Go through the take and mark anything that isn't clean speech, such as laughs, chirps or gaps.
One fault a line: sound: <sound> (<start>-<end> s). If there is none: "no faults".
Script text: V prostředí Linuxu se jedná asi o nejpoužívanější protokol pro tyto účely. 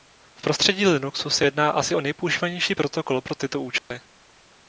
sound: dropout (3.8-3.9 s)